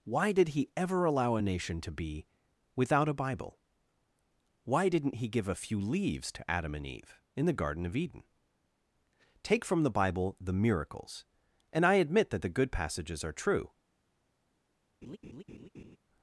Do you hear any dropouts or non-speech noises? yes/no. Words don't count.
yes